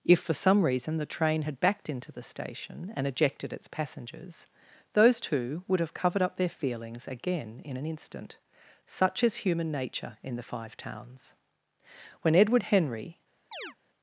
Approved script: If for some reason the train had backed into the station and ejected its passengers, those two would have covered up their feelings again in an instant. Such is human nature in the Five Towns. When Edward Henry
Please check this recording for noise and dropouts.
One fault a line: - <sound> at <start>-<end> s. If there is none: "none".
- chirp at 13.5-13.8 s